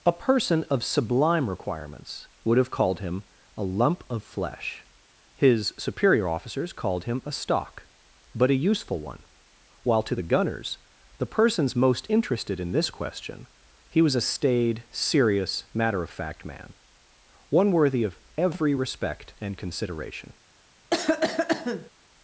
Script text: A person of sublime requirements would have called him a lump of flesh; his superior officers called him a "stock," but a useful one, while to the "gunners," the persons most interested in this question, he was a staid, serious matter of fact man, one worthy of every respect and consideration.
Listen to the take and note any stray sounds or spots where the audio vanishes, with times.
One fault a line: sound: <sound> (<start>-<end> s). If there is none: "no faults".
sound: cough (20.9-21.9 s)